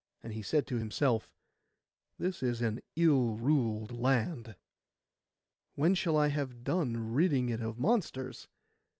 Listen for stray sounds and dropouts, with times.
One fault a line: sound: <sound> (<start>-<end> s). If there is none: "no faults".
no faults